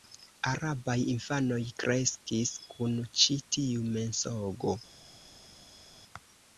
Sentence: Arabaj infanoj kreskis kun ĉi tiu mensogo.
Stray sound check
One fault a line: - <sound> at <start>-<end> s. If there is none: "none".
none